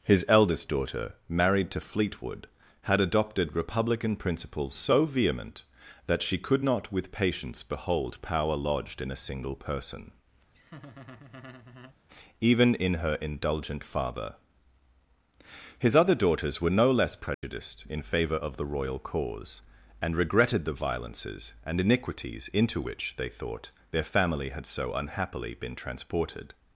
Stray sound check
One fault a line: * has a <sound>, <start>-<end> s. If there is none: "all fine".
* has a laugh, 10.5-12.0 s
* has a dropout, 17.3-17.4 s